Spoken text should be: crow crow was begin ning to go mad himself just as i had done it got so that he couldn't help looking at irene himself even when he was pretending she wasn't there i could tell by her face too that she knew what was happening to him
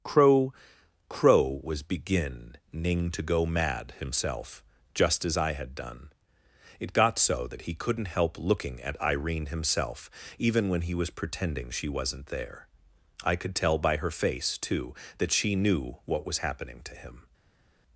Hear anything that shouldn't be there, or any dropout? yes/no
no